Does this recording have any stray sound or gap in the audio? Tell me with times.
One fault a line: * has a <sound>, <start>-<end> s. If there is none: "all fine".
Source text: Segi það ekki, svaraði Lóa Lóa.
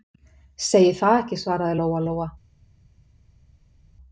all fine